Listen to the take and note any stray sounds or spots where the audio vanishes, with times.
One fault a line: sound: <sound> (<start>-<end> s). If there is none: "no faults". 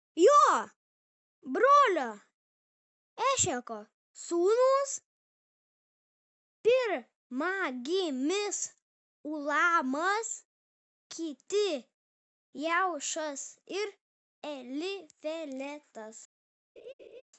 sound: laugh (16.8-17.2 s)